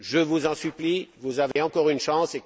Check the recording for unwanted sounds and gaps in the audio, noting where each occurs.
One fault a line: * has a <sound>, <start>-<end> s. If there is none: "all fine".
* has a dropout, 1.5-1.6 s